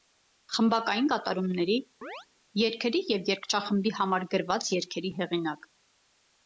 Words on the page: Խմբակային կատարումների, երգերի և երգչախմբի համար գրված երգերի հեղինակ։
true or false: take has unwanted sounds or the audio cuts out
true